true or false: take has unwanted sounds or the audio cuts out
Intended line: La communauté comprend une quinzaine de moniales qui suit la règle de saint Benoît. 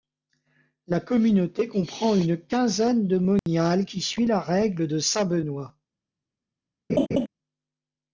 true